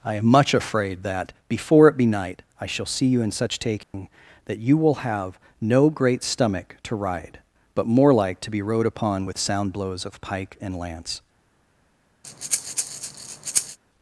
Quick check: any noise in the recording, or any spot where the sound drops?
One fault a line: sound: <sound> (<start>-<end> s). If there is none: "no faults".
sound: dropout (3.8-3.9 s)
sound: breath (12.2-13.8 s)